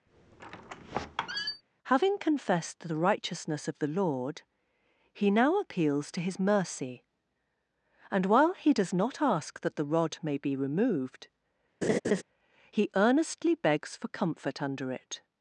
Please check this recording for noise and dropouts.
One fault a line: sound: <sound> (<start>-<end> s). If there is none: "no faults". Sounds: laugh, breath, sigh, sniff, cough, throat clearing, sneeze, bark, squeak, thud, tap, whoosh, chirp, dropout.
sound: squeak (0.1-1.6 s)
sound: laugh (11.8-12.2 s)